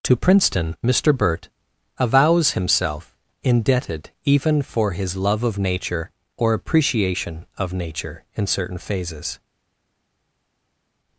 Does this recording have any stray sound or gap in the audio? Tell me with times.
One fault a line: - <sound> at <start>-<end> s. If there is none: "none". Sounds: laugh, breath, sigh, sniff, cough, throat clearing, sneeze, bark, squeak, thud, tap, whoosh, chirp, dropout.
none